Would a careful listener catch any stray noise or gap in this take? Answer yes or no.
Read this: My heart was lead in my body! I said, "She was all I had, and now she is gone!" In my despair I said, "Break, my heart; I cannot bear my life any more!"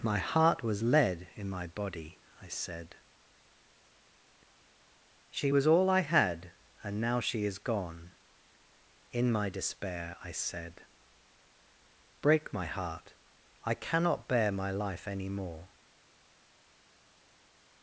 no